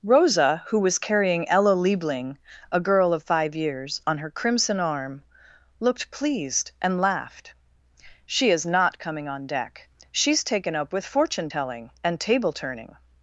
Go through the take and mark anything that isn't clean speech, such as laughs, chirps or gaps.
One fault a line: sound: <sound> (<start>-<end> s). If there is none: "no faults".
no faults